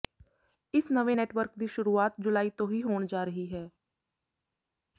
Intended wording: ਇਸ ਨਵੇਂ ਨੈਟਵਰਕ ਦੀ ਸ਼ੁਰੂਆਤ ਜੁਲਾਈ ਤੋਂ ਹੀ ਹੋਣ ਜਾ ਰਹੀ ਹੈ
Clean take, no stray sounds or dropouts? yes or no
yes